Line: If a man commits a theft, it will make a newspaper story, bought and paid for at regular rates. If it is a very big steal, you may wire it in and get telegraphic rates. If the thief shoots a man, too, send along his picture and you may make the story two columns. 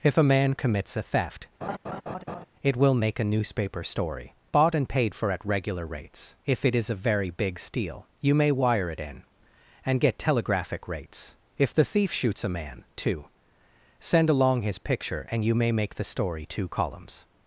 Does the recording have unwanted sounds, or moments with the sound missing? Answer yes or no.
yes